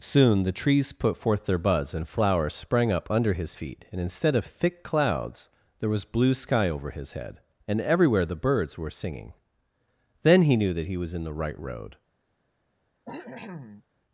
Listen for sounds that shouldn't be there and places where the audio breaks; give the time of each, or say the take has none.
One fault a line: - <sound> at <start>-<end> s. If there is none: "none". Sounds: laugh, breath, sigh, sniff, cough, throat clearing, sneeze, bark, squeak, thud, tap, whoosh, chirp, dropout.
- cough at 13.0-13.8 s